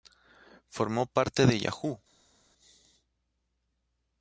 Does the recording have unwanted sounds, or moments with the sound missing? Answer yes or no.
no